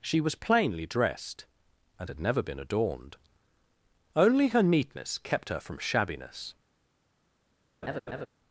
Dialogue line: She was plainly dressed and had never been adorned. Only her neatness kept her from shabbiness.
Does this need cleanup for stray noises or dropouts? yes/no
yes